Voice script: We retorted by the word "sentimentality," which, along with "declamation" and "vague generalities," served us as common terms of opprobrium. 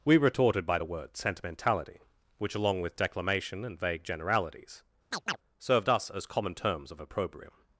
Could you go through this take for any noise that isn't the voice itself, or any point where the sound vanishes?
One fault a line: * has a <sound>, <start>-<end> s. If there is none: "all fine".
* has a chirp, 5.1-5.4 s